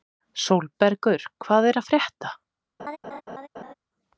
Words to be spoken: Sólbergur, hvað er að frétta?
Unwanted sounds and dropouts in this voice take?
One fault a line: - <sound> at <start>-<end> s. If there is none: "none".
- laugh at 2.8-3.7 s